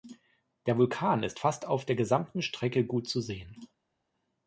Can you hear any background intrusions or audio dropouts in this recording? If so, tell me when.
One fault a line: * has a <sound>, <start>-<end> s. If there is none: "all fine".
all fine